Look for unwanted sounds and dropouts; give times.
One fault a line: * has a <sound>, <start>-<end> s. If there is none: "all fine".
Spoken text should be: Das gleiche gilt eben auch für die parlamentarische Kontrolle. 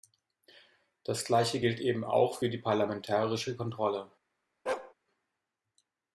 * has a bark, 4.7-4.9 s